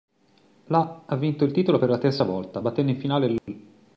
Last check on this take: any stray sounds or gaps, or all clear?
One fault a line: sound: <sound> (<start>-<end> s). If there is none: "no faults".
sound: dropout (3.4-3.5 s)